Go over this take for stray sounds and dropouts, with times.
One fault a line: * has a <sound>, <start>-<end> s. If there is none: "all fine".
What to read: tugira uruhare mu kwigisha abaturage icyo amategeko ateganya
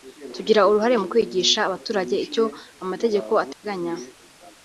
* has a dropout, 3.5-3.6 s